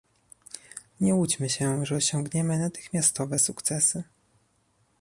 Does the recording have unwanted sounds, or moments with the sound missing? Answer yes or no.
no